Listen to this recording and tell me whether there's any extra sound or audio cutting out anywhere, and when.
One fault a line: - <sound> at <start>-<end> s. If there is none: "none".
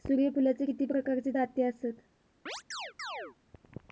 - chirp at 2.5-3.4 s